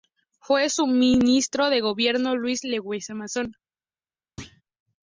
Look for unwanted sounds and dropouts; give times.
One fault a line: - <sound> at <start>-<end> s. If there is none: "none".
- thud at 4.4-4.6 s